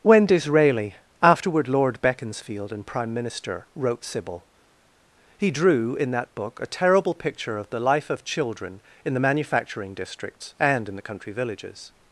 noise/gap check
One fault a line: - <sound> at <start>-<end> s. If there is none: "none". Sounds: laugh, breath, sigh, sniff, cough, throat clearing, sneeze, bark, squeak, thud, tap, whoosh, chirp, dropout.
none